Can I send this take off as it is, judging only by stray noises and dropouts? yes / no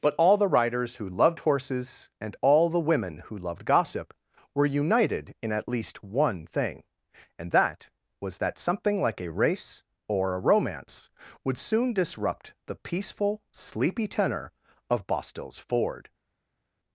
yes